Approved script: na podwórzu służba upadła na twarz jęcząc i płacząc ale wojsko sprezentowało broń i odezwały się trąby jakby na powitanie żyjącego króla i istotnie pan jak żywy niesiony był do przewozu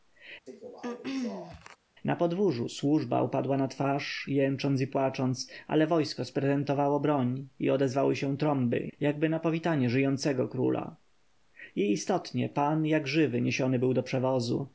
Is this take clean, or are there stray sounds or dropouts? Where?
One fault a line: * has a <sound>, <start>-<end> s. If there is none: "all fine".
* has a throat clearing, 0.5-1.8 s